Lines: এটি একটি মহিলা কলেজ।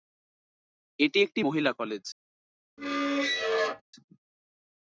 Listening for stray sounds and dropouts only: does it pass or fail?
fail